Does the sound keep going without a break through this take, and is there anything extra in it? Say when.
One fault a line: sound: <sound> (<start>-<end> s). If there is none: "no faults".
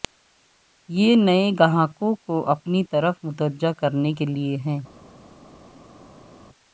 no faults